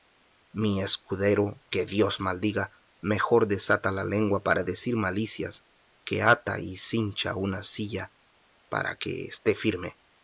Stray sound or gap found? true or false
false